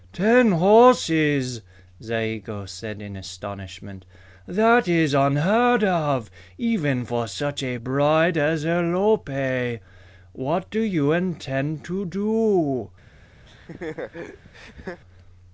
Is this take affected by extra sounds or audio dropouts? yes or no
yes